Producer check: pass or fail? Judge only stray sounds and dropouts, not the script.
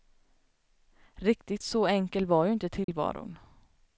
fail